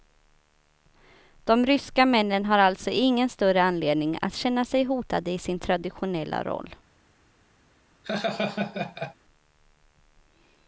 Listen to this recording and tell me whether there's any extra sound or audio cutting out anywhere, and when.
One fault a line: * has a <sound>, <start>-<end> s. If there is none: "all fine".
* has a laugh, 8.0-9.1 s